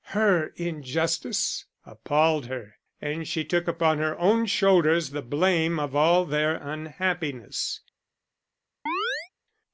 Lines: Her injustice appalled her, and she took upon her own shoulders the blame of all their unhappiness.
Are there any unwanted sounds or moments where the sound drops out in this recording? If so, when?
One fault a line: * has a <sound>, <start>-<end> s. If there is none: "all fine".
* has a chirp, 8.9-9.3 s